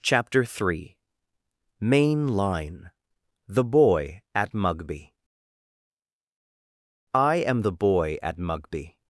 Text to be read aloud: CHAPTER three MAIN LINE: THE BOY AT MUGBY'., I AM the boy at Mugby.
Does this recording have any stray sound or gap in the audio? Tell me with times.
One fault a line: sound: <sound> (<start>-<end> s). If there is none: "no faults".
no faults